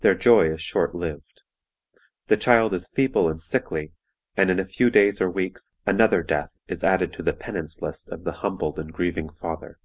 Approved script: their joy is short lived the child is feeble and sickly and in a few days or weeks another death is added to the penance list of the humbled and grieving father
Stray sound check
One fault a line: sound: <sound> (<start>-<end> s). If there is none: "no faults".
no faults